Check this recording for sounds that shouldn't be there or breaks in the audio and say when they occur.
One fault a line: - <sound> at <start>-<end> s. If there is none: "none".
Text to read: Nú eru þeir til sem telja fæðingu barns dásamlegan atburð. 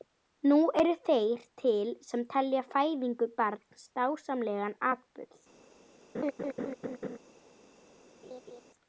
- laugh at 6.1-7.2 s
- laugh at 8.2-8.6 s